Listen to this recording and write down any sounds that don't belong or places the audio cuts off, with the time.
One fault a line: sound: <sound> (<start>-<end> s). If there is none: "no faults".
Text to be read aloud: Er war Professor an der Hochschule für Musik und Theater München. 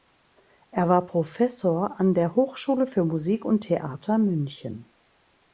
no faults